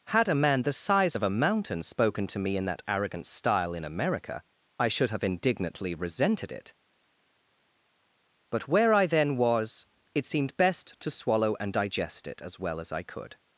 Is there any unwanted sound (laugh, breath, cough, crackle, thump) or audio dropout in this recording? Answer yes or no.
no